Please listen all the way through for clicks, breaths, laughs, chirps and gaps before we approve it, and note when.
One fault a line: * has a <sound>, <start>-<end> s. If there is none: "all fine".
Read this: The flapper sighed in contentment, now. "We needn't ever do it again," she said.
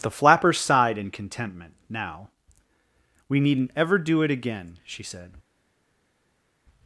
all fine